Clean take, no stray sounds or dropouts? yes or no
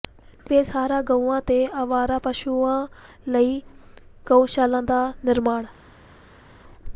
yes